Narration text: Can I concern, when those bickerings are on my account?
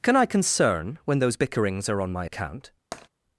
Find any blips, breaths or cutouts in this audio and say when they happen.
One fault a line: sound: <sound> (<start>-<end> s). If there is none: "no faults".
sound: tap (2.9-3.1 s)